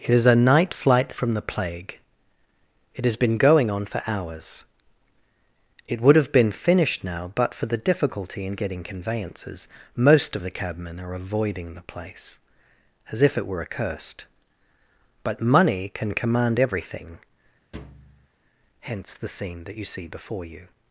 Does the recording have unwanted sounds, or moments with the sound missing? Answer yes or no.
yes